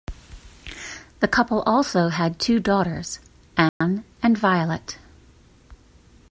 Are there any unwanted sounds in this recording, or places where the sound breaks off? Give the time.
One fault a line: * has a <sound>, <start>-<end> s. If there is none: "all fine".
* has a dropout, 3.7-3.8 s